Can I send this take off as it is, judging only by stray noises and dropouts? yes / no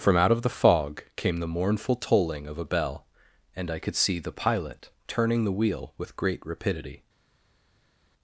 yes